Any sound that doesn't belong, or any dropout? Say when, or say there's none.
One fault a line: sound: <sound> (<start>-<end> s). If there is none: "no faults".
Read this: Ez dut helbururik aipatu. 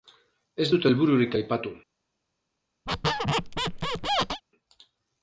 sound: squeak (2.9-4.4 s)